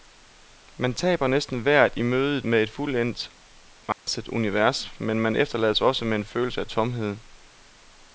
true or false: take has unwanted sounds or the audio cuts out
true